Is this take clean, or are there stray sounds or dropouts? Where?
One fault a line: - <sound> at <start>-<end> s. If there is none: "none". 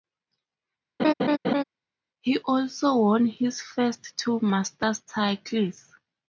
- laugh at 1.0-1.6 s